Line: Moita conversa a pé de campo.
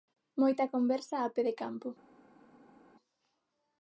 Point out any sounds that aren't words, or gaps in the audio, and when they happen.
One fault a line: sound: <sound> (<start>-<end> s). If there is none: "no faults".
no faults